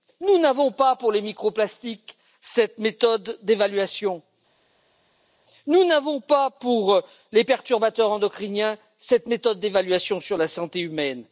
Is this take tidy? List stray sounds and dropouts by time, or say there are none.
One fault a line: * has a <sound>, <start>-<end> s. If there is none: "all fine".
all fine